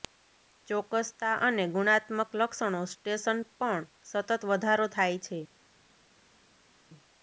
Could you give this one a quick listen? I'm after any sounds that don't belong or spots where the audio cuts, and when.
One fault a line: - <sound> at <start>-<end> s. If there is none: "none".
none